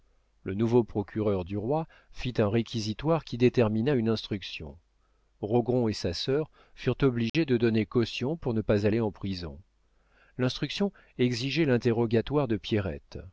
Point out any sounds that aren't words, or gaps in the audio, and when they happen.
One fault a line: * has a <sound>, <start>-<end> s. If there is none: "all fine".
* has a dropout, 7.3-7.3 s